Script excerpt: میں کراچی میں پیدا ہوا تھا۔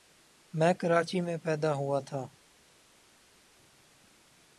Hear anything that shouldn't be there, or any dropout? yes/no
no